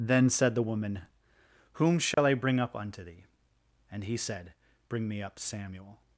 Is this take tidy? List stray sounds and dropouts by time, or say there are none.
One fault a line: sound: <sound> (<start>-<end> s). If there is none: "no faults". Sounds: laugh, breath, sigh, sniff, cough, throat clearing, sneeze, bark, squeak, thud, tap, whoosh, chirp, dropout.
sound: dropout (2.1-2.2 s)